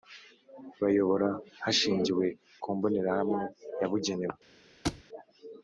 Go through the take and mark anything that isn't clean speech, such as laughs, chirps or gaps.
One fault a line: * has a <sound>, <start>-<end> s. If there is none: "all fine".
* has a thud, 4.8-5.0 s